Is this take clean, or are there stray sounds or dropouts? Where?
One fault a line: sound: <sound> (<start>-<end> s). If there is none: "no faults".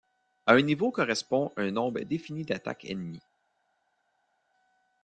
no faults